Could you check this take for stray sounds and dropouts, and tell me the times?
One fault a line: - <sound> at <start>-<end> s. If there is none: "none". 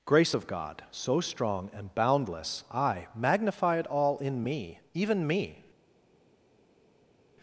none